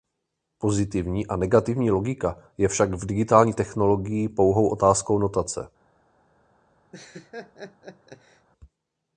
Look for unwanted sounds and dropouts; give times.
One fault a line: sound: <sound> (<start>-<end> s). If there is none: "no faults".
sound: laugh (6.9-8.5 s)